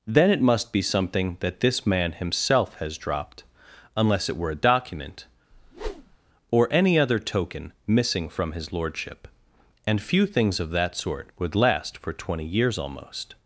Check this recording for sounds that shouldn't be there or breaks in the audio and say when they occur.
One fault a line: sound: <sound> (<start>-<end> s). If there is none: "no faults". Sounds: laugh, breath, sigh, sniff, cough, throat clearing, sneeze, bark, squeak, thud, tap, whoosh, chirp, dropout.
sound: whoosh (5.5-6.2 s)